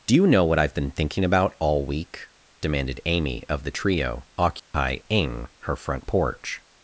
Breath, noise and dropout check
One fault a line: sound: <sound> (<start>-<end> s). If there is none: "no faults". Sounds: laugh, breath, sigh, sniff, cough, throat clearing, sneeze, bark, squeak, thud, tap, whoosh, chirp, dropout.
sound: dropout (4.6-4.7 s)